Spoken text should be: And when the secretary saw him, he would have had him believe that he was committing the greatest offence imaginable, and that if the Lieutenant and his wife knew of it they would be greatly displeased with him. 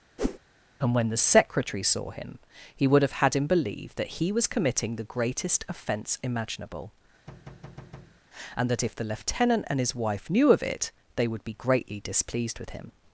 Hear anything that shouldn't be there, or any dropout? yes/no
yes